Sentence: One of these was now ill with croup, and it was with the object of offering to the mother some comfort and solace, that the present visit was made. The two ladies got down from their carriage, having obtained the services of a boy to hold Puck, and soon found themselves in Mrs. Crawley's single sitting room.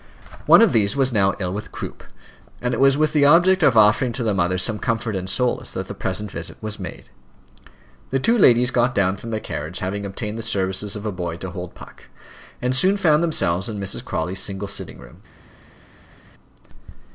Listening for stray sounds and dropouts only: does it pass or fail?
pass